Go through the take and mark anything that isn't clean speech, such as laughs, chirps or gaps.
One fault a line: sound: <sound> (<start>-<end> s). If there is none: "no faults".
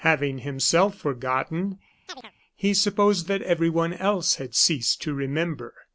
sound: chirp (2.1-2.3 s)